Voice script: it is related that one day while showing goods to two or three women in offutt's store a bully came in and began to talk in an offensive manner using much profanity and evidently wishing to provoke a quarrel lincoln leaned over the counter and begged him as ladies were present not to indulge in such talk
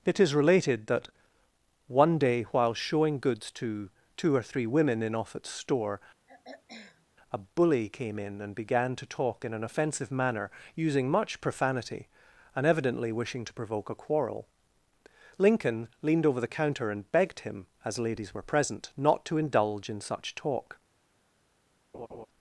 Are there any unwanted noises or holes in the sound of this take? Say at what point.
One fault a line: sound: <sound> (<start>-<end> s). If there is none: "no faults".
sound: throat clearing (6.3-7.1 s)
sound: laugh (21.9-22.3 s)